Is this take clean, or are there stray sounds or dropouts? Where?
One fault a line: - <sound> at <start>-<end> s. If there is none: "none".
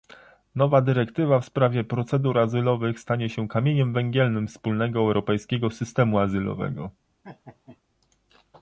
- laugh at 7.2-7.8 s